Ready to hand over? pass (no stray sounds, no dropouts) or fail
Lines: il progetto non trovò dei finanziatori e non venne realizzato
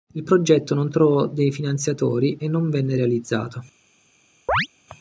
fail